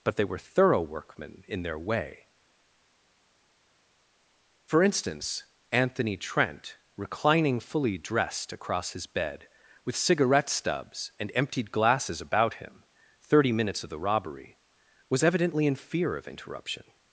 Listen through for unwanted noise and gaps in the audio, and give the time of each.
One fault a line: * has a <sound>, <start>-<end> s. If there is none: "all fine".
all fine